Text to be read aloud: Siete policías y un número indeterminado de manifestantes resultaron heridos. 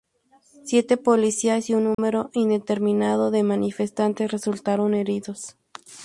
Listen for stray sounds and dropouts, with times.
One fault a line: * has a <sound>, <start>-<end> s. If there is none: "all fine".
* has a dropout, 1.9-2.0 s